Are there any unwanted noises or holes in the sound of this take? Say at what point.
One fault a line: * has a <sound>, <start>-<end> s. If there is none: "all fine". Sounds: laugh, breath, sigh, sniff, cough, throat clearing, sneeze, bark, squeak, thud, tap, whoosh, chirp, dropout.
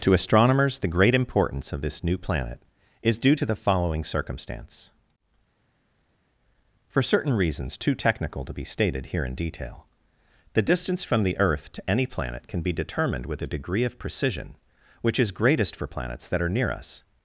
all fine